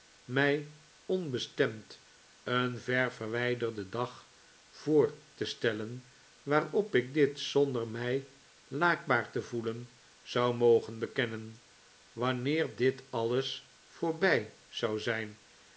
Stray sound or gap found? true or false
false